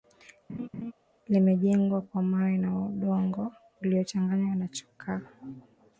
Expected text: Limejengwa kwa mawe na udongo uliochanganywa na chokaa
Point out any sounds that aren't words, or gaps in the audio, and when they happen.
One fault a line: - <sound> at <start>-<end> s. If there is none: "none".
- laugh at 0.5-0.9 s